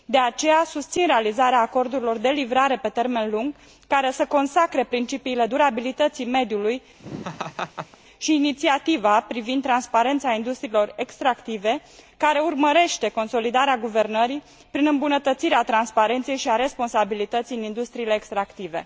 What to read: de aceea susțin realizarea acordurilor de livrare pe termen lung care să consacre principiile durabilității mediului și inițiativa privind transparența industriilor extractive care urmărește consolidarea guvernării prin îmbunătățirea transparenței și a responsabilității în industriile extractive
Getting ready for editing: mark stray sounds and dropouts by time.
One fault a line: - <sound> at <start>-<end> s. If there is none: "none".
- laugh at 7.0-8.0 s